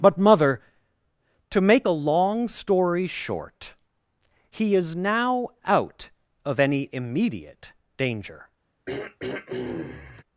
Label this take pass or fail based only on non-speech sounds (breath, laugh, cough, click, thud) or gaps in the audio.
fail